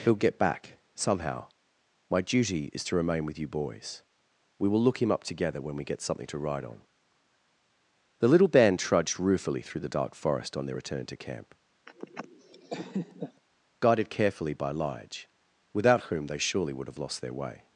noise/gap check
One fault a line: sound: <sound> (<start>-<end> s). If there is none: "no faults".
sound: laugh (11.9-13.4 s)